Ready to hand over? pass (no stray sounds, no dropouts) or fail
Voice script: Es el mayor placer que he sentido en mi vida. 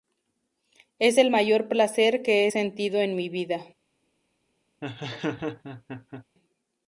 fail